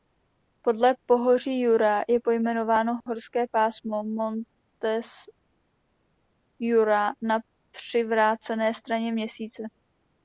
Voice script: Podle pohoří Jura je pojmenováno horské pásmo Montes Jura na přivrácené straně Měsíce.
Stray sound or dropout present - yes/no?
no